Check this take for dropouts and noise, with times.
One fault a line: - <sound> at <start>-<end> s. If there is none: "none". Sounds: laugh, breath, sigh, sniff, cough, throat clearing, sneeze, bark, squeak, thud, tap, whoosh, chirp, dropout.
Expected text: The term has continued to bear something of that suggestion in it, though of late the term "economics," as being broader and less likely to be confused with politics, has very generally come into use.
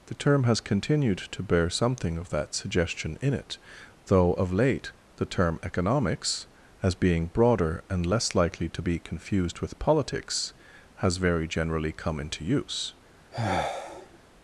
- sigh at 13.3-14.2 s